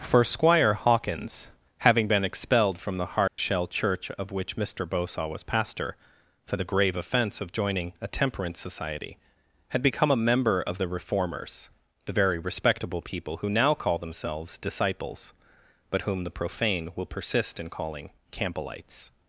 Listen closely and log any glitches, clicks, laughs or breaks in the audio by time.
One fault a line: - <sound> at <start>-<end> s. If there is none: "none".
- dropout at 3.3-3.4 s